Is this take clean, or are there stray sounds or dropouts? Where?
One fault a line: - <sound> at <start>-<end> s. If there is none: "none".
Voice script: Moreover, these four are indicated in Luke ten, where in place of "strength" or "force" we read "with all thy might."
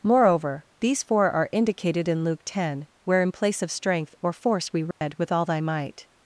- dropout at 4.9-5.0 s